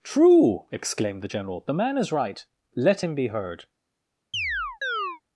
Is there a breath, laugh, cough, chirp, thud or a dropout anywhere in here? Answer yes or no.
yes